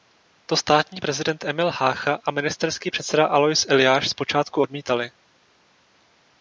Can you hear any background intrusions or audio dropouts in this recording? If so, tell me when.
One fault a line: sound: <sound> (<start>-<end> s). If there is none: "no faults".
no faults